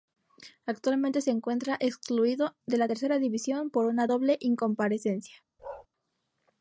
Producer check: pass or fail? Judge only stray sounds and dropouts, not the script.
fail